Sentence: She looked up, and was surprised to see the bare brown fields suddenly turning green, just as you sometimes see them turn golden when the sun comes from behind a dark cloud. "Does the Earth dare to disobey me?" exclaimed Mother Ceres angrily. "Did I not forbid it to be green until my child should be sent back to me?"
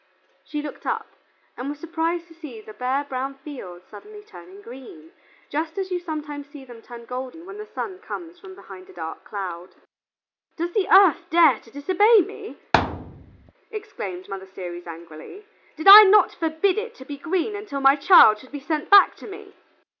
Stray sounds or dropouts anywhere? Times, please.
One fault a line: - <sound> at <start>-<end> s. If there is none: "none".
- thud at 12.7-13.5 s